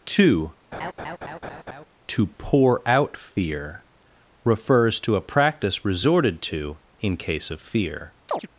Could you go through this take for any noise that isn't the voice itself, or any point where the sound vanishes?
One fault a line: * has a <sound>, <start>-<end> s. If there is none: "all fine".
* has a laugh, 0.7-1.9 s
* has a chirp, 8.3-8.5 s